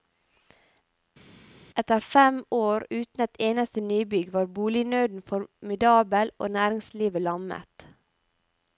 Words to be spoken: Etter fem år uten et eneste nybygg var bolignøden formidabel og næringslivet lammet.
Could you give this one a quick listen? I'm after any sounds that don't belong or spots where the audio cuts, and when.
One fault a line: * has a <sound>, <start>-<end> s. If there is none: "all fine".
all fine